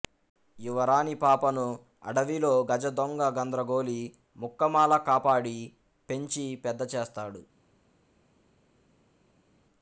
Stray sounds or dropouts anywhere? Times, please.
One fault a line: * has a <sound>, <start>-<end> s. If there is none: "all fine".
all fine